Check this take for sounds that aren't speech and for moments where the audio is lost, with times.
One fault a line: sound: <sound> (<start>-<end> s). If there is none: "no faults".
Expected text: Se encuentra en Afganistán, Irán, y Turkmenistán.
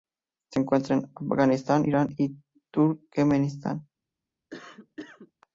sound: cough (4.5-5.3 s)